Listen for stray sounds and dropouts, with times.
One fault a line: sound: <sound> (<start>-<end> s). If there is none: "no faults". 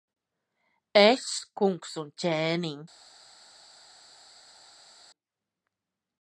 no faults